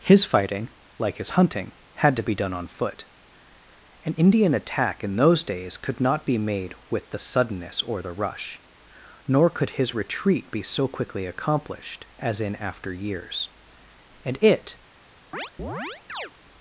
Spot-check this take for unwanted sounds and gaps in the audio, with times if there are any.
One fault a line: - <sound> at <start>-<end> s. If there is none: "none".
- chirp at 15.3-16.3 s